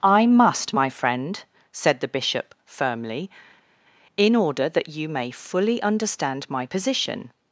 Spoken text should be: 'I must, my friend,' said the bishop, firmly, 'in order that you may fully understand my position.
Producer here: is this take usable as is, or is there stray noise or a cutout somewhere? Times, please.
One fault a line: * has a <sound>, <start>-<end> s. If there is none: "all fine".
all fine